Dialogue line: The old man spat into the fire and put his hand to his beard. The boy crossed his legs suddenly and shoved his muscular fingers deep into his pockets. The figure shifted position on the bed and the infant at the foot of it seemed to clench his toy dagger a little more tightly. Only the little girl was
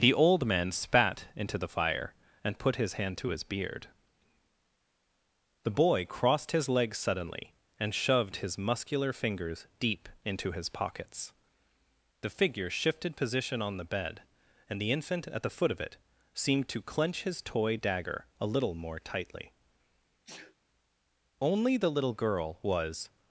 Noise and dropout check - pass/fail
fail